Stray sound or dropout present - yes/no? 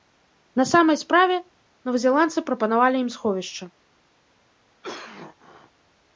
yes